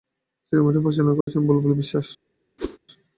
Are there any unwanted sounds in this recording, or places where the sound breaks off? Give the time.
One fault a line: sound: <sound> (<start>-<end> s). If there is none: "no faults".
sound: dropout (1.2-1.3 s)
sound: whoosh (2.6-2.8 s)